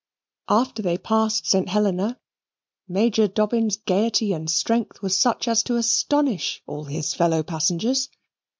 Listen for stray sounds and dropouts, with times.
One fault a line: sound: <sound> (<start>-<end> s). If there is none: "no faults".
no faults